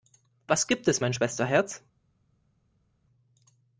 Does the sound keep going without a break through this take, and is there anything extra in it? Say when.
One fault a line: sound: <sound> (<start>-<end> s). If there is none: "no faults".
no faults